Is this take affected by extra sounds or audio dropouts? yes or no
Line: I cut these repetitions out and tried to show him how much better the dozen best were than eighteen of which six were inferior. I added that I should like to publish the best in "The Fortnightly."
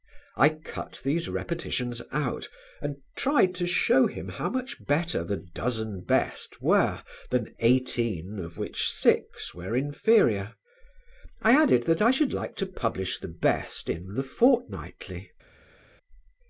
no